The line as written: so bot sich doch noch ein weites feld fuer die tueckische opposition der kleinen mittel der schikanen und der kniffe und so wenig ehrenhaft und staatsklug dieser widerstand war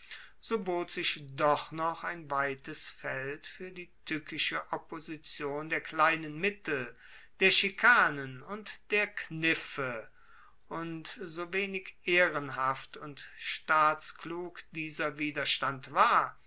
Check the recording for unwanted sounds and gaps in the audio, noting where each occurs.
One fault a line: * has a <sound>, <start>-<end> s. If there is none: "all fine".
all fine